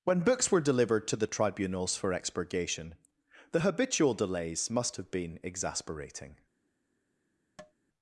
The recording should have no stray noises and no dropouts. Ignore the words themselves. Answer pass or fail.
fail